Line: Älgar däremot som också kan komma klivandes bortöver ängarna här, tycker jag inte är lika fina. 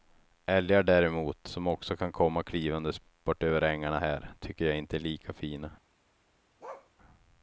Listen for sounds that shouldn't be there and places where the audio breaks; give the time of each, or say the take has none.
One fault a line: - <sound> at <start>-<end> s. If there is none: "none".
- bark at 6.6-6.9 s